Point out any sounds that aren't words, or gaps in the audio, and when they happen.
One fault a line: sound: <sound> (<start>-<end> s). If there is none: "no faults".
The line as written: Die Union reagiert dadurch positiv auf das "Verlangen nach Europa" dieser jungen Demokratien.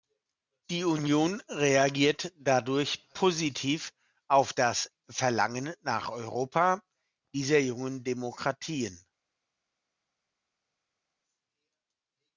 no faults